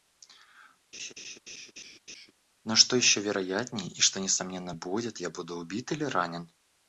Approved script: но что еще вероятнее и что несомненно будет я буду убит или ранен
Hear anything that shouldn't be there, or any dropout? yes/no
yes